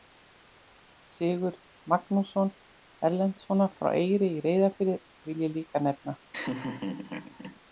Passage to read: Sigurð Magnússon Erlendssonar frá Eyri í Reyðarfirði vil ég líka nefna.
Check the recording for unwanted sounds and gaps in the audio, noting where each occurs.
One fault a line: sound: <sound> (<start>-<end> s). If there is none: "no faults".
sound: laugh (6.3-7.6 s)